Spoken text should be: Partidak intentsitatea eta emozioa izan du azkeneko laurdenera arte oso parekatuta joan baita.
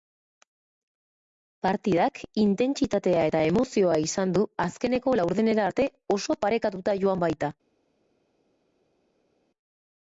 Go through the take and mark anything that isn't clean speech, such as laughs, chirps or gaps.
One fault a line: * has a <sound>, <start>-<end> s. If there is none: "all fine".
all fine